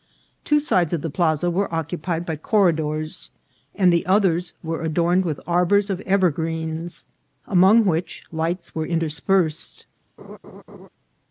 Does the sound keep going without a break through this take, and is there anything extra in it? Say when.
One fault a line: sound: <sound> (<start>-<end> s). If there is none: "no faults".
sound: laugh (10.2-10.9 s)